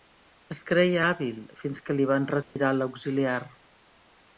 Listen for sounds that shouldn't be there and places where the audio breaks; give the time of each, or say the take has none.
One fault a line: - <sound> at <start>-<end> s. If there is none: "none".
- dropout at 2.4-2.6 s